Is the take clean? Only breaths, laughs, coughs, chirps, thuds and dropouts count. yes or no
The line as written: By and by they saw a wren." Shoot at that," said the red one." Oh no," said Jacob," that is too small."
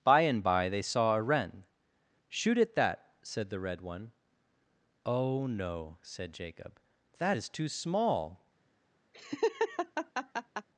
no